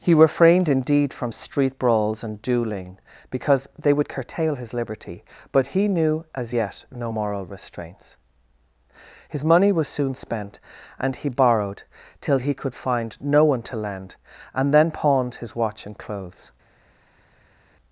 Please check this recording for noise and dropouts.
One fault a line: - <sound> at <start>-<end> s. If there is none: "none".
none